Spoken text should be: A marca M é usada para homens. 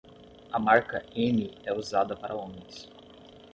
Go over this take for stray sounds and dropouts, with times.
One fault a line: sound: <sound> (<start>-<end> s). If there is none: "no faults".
no faults